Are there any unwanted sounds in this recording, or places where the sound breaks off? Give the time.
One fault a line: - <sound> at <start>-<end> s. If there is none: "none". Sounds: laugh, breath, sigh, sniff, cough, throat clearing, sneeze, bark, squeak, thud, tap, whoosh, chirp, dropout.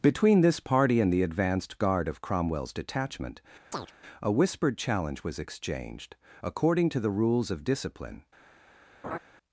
- chirp at 3.7-3.9 s
- laugh at 9.0-9.2 s